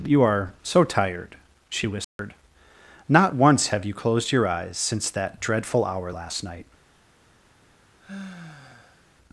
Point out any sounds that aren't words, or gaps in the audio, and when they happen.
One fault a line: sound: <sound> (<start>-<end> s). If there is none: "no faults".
sound: dropout (2.0-2.2 s)
sound: sigh (8.0-9.1 s)